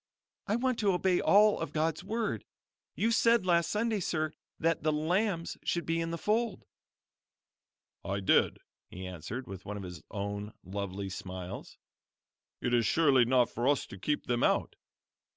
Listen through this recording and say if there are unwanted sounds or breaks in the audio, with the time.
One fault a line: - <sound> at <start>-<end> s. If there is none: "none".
none